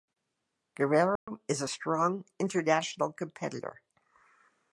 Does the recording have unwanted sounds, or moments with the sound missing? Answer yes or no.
yes